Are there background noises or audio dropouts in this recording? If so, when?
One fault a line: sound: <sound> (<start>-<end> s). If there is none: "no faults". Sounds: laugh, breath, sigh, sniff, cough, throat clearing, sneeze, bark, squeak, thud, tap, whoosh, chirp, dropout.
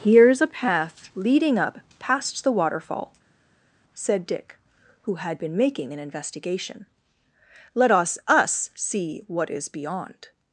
no faults